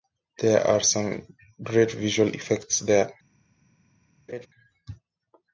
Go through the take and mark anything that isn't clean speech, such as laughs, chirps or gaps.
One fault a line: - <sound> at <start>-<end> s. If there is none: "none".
- laugh at 4.3-4.5 s